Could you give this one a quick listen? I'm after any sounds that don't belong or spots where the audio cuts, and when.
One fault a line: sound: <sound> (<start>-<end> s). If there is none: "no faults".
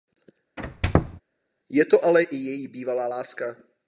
sound: squeak (0.6-1.2 s)